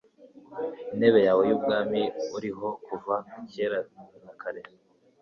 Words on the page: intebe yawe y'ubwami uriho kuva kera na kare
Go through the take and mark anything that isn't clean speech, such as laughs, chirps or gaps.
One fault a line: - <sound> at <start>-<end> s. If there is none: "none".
none